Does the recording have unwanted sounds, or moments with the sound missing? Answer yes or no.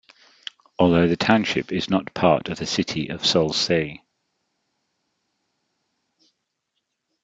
no